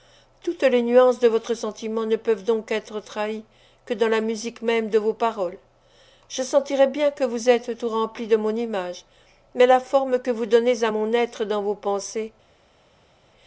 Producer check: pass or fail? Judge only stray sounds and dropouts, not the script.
pass